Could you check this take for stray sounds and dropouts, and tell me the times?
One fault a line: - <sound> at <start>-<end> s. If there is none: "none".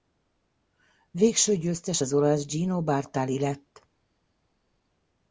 none